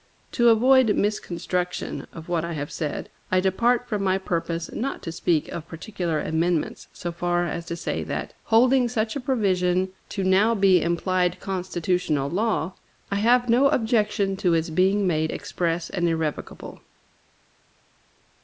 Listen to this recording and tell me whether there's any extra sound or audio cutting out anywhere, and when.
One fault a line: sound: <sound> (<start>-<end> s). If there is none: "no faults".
no faults